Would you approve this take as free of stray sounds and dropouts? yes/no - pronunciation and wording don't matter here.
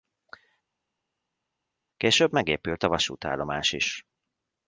yes